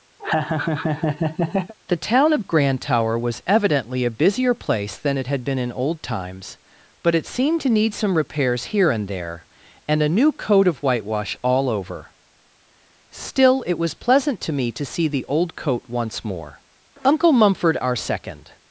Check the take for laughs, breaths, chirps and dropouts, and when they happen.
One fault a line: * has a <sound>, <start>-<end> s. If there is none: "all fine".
* has a laugh, 0.2-1.7 s